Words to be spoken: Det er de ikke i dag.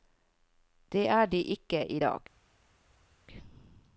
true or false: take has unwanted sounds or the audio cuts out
false